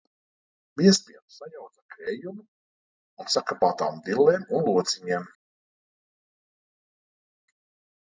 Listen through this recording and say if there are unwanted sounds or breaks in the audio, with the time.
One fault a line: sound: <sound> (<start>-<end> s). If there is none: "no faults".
no faults